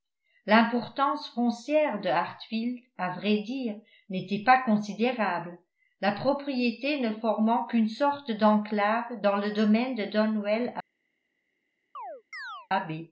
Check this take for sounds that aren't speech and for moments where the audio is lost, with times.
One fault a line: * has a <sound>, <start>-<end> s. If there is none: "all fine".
* has a chirp, 11.9-12.7 s